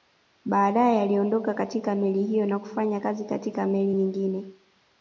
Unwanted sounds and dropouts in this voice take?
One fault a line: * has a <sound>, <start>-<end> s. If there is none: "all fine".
all fine